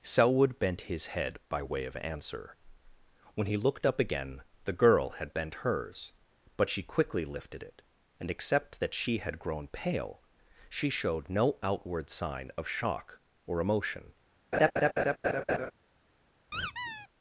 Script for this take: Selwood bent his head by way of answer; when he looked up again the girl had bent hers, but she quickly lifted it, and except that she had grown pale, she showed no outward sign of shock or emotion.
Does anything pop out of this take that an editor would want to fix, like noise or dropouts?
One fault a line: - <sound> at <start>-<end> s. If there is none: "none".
- laugh at 14.5-15.7 s
- squeak at 16.5-17.1 s